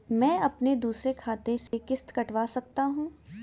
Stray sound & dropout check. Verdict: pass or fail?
fail